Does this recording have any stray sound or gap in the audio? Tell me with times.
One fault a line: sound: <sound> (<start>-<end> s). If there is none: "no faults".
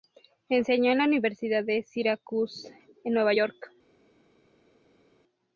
no faults